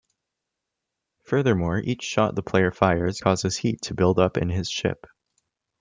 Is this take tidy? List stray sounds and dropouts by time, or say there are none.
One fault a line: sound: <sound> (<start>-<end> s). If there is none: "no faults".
no faults